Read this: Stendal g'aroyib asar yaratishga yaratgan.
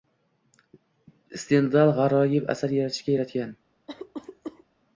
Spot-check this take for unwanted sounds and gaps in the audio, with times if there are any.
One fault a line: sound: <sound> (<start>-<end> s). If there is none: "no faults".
sound: cough (3.9-4.6 s)